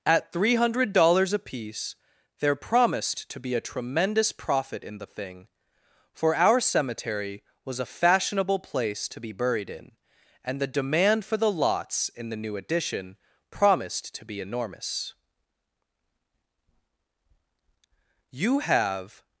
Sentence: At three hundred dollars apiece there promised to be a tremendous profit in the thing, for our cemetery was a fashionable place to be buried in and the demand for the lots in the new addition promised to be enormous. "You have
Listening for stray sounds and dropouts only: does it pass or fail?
pass